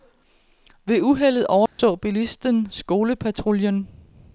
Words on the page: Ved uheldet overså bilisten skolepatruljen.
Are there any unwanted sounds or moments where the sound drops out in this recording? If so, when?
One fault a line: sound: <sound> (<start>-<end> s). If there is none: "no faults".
sound: dropout (1.7-1.8 s)